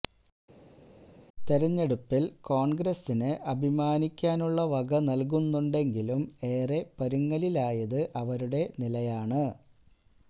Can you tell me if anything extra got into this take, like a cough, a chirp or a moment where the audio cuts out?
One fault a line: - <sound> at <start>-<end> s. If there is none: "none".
none